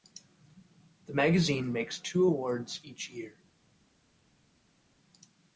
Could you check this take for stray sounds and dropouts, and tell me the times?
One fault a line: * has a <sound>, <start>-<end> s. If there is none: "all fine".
all fine